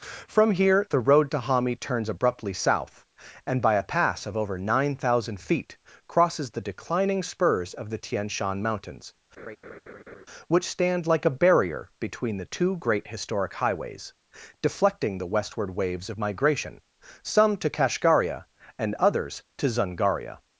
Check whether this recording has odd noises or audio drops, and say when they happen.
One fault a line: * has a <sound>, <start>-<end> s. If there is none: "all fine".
* has a laugh, 9.4-10.3 s